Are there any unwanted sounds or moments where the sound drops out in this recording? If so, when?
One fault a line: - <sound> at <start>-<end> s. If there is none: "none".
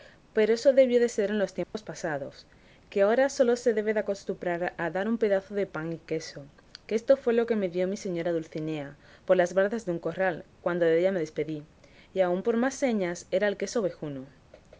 - dropout at 1.6-1.7 s